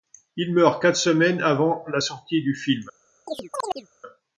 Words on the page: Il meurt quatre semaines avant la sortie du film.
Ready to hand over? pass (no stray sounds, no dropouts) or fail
fail